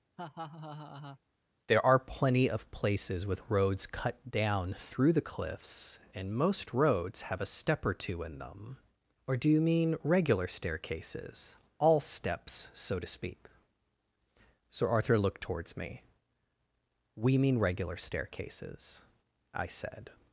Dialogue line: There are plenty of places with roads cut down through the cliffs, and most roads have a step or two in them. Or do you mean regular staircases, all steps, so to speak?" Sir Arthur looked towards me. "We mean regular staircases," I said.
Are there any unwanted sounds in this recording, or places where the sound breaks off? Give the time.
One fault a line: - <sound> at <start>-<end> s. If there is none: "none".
- laugh at 0.2-1.2 s